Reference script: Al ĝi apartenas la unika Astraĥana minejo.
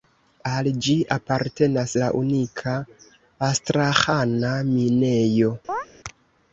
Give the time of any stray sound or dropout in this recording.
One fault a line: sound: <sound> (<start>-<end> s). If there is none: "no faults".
sound: chirp (5.7-5.9 s)